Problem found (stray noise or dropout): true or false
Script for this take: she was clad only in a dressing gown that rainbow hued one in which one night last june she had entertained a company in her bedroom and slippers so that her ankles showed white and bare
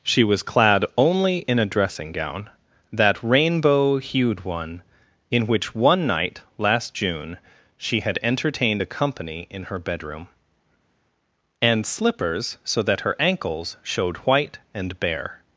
false